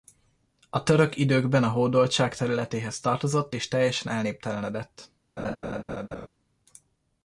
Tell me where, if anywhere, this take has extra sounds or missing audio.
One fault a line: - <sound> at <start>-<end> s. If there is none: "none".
- laugh at 5.4-6.3 s